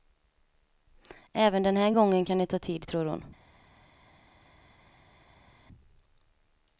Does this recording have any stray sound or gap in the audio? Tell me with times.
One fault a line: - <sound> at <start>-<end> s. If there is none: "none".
none